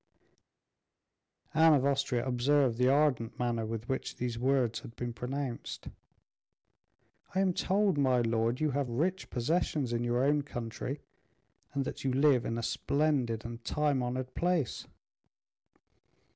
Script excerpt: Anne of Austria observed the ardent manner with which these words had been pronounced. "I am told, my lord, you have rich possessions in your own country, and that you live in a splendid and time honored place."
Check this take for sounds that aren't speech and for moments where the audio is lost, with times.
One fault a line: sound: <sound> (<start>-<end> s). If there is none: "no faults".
no faults